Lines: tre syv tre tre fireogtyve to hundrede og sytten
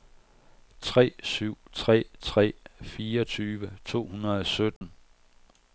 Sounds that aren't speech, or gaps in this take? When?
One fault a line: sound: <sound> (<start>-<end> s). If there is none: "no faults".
sound: dropout (4.8-4.8 s)